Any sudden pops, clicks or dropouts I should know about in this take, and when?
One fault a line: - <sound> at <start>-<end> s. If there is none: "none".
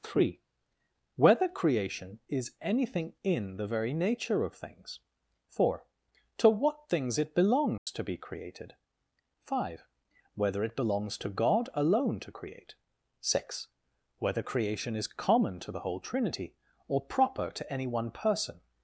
- dropout at 7.8-7.9 s